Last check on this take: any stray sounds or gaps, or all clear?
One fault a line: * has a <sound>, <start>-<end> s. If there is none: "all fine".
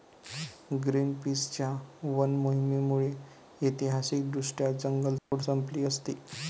* has a dropout, 5.2-5.3 s